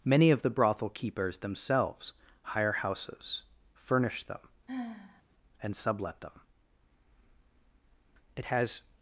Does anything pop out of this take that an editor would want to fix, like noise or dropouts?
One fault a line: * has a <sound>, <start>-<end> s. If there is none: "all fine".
* has a sigh, 4.7-5.2 s